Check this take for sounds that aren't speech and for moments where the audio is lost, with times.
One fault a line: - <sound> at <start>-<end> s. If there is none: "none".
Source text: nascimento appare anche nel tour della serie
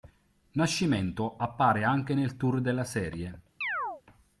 - chirp at 3.6-4.0 s